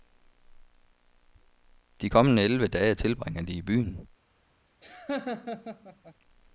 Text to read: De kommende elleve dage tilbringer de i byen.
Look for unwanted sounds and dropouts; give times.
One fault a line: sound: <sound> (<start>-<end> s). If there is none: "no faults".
sound: laugh (4.8-6.1 s)